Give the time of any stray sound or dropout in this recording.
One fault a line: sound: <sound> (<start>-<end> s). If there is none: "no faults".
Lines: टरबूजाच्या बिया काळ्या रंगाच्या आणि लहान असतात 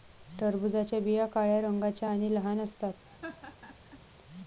sound: laugh (3.1-4.0 s)